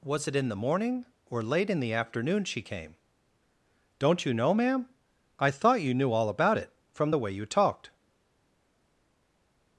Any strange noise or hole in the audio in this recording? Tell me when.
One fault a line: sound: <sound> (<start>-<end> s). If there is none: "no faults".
no faults